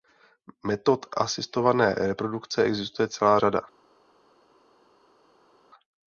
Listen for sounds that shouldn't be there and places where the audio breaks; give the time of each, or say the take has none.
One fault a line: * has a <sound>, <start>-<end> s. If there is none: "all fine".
all fine